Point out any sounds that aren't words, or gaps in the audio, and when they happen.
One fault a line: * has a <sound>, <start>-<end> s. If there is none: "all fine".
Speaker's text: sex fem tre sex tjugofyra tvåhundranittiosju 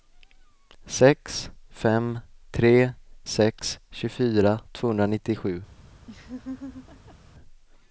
* has a laugh, 6.1-7.2 s